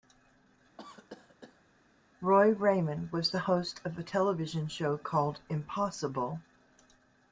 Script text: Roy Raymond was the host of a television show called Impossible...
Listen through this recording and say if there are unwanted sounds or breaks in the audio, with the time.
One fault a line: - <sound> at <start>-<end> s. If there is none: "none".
- cough at 0.8-1.6 s